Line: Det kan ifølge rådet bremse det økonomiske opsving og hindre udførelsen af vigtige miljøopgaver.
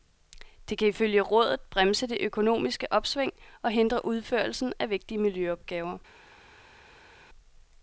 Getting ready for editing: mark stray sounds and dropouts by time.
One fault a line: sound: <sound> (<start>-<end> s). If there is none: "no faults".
no faults